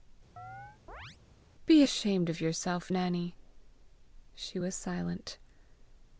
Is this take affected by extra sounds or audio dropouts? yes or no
yes